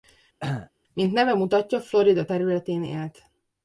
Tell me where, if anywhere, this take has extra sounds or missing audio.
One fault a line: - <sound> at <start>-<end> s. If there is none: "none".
- cough at 0.4-0.7 s